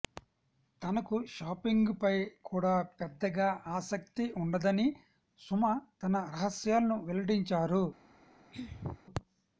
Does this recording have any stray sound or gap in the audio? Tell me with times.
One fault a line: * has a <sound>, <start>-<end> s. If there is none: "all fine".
* has a throat clearing, 8.5-9.0 s